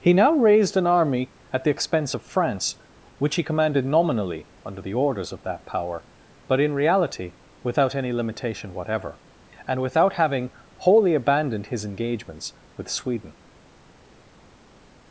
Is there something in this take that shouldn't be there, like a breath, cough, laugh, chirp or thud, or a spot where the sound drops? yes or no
no